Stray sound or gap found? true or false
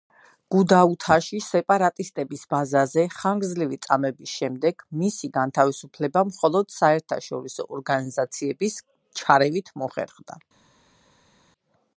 false